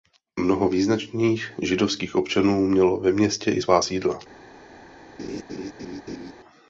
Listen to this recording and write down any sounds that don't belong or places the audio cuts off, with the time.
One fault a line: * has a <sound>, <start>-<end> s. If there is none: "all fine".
* has a laugh, 5.2-6.3 s